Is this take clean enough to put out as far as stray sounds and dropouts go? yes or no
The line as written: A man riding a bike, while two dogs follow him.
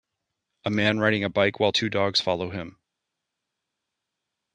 yes